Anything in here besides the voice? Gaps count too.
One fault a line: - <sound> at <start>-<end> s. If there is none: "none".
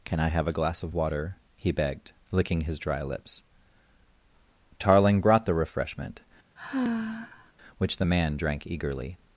- sigh at 6.6-7.5 s